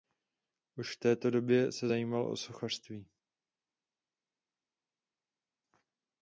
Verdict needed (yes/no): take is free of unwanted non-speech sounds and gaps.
yes